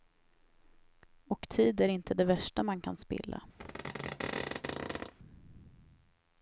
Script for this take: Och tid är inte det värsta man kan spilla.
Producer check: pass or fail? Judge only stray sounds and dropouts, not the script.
fail